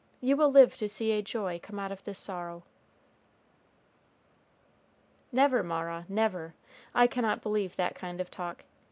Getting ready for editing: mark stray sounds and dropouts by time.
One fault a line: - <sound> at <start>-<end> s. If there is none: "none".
none